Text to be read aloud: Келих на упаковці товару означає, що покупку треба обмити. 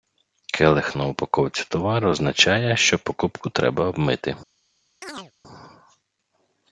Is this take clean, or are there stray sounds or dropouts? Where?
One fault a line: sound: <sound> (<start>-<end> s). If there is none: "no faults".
sound: chirp (5.0-5.3 s)